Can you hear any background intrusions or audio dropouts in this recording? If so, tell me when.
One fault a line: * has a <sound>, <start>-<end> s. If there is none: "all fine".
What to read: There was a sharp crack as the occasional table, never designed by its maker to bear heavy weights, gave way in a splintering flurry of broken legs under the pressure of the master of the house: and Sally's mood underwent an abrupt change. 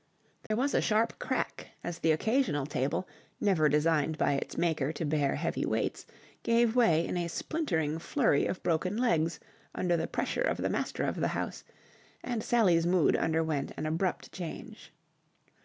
* has a dropout, 0.5-0.5 s